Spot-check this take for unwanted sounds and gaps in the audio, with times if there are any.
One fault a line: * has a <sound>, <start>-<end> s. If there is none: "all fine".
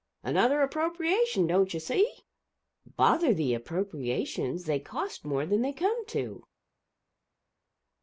all fine